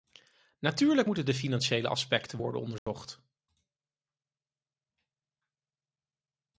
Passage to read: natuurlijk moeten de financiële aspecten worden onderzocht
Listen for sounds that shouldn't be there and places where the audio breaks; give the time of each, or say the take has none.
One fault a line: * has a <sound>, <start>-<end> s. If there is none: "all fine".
* has a dropout, 2.8-2.9 s